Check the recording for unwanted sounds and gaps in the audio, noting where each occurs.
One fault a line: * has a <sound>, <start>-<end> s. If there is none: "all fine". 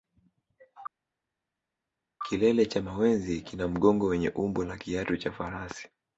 all fine